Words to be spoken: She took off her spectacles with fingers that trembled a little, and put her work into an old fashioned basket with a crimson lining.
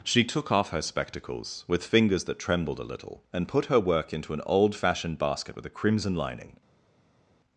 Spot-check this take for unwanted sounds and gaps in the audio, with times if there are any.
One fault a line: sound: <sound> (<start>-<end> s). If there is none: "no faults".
no faults